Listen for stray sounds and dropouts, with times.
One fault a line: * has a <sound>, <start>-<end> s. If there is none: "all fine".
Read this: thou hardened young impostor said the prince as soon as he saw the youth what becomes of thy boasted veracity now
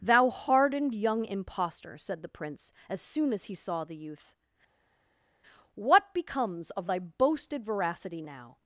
all fine